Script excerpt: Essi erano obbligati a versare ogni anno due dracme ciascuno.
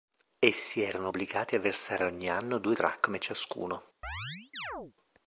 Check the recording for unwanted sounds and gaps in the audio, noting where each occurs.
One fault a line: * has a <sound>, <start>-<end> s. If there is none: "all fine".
* has a chirp, 4.0-4.9 s